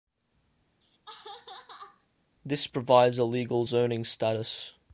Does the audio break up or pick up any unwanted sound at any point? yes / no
yes